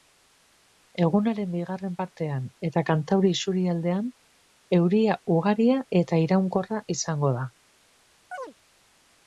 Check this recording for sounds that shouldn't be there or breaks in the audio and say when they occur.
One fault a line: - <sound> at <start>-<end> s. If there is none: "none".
- chirp at 8.3-8.5 s